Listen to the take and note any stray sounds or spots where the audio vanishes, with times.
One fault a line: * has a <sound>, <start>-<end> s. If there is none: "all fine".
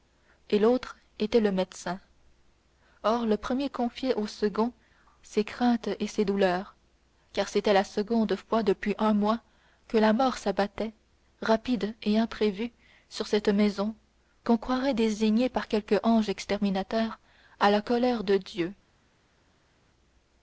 all fine